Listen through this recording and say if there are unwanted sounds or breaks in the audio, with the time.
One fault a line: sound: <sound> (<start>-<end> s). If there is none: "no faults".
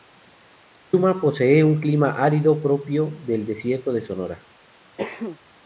sound: cough (5.0-5.4 s)